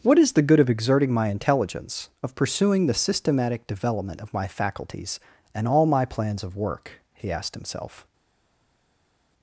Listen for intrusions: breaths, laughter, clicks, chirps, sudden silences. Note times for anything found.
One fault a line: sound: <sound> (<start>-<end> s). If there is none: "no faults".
no faults